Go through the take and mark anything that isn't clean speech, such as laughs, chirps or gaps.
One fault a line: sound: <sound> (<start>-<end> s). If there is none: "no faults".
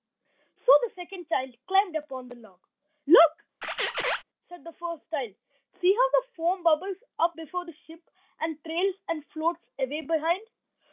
sound: squeak (3.6-4.2 s)